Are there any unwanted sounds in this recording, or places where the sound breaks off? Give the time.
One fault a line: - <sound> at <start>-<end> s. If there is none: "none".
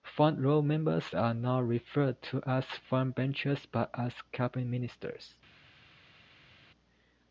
none